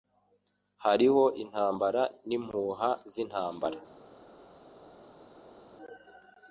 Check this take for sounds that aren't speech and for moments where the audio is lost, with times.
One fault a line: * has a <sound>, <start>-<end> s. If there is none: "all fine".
all fine